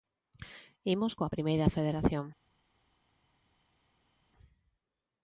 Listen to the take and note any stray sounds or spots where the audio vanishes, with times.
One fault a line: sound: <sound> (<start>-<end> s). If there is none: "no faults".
no faults